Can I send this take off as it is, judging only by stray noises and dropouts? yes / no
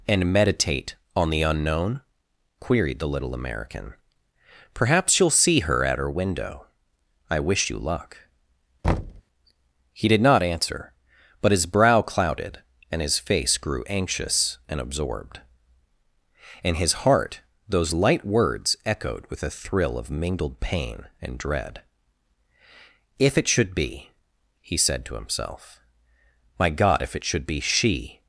no